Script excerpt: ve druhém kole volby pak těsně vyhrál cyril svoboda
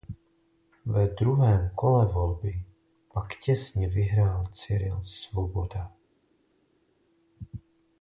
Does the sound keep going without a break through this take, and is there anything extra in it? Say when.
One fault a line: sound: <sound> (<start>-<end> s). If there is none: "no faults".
no faults